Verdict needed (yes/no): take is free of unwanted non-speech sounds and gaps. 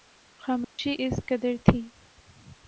no